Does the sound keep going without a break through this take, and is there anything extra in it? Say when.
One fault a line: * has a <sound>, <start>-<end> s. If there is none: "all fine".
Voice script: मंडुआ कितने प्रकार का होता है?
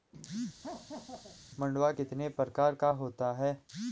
* has a laugh, 0.6-1.4 s